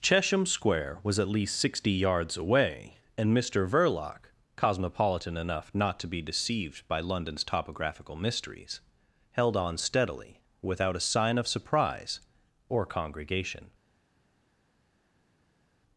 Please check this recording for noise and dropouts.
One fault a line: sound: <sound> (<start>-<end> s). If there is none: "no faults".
no faults